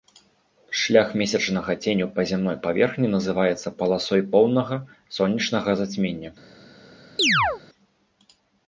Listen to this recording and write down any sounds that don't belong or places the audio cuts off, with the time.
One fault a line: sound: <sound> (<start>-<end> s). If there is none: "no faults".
sound: chirp (7.2-7.6 s)